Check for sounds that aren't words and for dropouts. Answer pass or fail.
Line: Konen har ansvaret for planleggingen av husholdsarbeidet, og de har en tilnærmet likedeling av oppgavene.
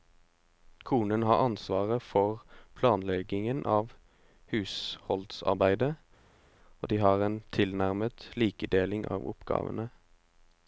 pass